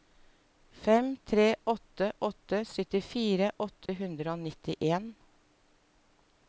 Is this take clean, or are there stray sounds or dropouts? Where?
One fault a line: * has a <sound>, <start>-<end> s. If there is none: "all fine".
* has a dropout, 3.9-3.9 s